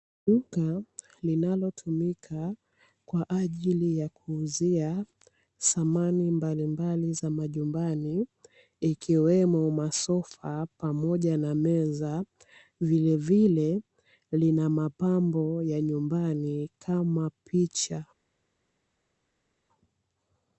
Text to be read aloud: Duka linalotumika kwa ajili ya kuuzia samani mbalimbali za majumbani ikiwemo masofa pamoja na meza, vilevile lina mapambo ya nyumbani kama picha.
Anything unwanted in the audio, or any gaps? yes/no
no